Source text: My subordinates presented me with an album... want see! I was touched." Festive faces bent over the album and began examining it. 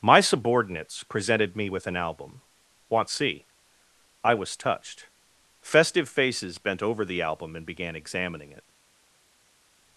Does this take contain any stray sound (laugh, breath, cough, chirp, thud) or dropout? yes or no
no